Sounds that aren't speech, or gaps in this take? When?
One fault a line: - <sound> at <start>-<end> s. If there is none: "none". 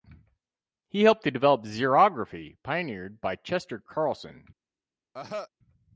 - cough at 5.1-5.5 s